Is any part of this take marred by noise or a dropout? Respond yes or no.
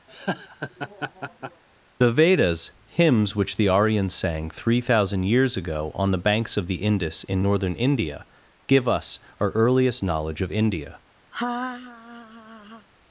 yes